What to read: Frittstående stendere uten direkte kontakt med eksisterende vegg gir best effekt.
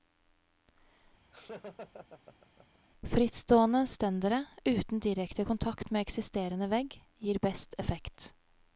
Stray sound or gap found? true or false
true